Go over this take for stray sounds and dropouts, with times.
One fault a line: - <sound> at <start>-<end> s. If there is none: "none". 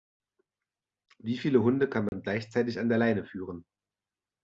- dropout at 2.1-2.1 s